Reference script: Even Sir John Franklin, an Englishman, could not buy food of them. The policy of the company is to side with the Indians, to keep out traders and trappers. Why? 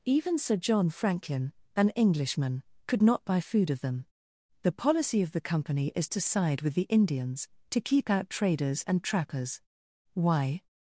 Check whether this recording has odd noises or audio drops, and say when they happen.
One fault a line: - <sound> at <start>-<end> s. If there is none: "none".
none